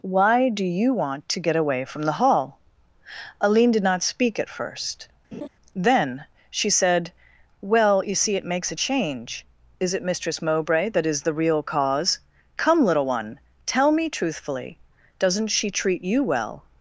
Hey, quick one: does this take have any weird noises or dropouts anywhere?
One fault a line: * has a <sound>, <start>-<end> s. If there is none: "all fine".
* has a laugh, 5.3-5.5 s